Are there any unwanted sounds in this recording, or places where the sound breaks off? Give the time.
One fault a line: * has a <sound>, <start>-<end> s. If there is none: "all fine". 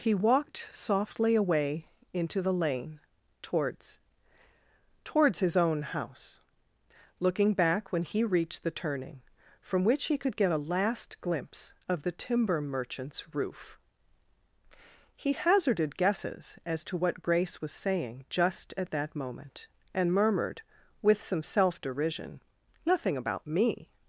all fine